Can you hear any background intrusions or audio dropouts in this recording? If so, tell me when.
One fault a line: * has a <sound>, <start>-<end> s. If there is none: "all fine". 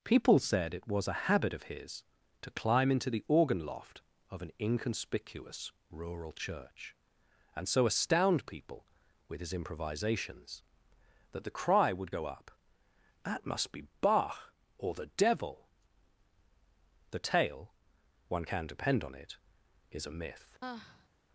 * has a sigh, 20.6-21.1 s